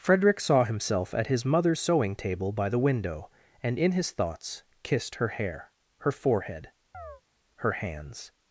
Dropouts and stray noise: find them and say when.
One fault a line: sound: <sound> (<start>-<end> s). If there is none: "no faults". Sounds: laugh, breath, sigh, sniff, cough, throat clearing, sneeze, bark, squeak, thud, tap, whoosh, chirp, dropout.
sound: chirp (6.9-7.2 s)